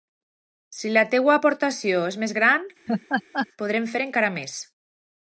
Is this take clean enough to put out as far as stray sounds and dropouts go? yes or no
no